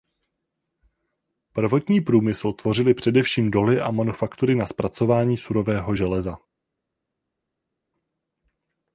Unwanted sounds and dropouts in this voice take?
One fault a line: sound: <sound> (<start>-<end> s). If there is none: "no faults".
no faults